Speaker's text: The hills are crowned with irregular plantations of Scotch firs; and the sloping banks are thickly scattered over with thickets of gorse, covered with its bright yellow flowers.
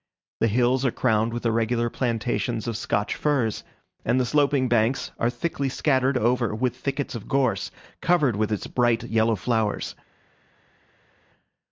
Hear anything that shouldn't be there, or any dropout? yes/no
no